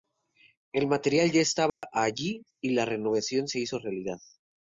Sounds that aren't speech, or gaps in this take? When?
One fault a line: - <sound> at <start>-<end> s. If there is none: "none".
- dropout at 1.7-1.8 s